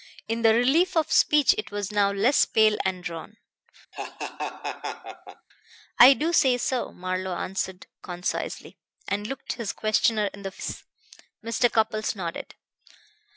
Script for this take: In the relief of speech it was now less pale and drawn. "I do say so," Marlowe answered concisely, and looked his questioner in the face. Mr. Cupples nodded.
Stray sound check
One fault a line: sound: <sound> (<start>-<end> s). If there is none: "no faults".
sound: laugh (3.9-5.5 s)